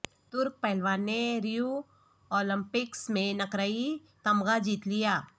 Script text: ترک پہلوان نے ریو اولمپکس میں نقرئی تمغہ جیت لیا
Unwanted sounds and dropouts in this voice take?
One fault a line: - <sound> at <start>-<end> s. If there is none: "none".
none